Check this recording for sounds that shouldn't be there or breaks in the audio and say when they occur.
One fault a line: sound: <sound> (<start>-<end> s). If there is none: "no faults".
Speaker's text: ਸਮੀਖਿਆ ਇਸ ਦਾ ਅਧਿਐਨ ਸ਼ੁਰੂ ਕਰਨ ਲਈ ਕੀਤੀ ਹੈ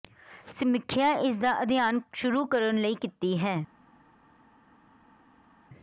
no faults